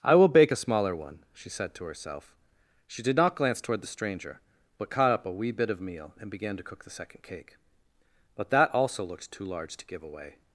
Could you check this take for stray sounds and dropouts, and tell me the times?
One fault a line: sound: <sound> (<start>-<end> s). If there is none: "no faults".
no faults